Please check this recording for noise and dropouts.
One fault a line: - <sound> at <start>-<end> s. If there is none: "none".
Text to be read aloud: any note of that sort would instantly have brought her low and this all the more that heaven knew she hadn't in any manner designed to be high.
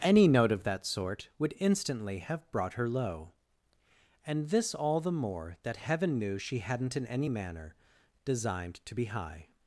none